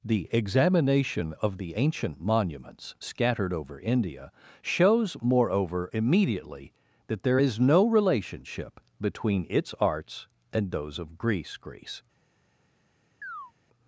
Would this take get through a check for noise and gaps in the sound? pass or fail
fail